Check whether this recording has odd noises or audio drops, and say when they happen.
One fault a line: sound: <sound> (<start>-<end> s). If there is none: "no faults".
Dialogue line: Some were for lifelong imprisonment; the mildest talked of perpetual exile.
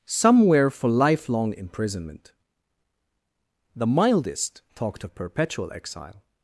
no faults